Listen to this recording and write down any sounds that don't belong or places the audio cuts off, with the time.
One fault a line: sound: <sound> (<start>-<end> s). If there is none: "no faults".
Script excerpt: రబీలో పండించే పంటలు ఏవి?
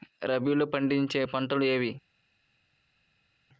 no faults